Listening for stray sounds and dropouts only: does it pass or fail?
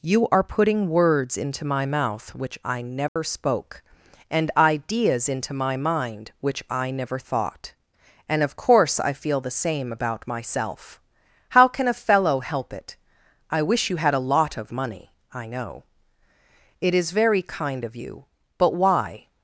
fail